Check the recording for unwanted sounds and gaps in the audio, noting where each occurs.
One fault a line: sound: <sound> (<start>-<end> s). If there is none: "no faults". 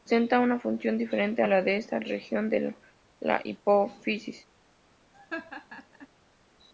sound: laugh (5.1-6.1 s)